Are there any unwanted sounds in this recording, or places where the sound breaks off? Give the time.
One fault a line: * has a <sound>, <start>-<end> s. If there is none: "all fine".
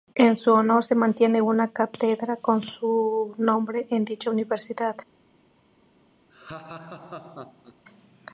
* has a laugh, 6.3-7.8 s